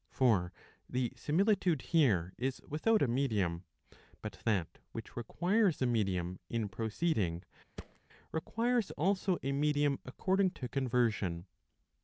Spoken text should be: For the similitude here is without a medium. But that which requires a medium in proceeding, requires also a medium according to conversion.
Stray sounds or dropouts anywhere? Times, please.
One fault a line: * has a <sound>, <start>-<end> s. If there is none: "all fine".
* has a thud, 7.8-8.0 s